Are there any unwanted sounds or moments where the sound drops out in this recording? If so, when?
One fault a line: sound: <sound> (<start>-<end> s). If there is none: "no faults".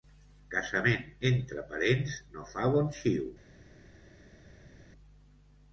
no faults